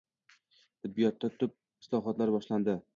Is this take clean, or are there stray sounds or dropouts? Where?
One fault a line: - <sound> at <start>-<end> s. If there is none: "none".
none